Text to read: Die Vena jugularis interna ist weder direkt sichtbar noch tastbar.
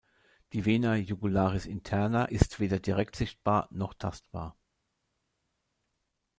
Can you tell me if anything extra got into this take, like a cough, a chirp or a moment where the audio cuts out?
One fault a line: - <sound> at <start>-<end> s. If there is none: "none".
none